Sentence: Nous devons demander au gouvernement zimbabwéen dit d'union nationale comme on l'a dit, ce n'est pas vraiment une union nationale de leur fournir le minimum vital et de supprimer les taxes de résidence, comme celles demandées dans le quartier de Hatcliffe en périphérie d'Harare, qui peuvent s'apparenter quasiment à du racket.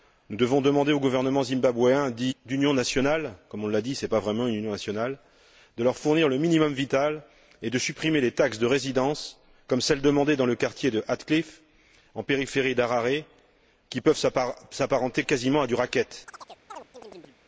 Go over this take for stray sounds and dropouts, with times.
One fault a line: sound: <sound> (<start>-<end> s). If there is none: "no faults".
sound: chirp (16.3-17.4 s)